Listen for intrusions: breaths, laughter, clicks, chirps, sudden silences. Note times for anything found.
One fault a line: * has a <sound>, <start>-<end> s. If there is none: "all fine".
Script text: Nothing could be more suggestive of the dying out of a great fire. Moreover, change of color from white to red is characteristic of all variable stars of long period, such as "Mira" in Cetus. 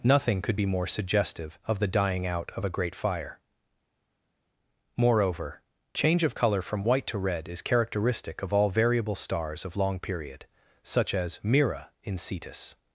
all fine